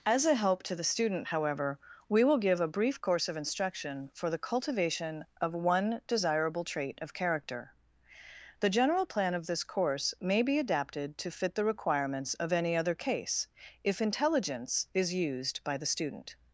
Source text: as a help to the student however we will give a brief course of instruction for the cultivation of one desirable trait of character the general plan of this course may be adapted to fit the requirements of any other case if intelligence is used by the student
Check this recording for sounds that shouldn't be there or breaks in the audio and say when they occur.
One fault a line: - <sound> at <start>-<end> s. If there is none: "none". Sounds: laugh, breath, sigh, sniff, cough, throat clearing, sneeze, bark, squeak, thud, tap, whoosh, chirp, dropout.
none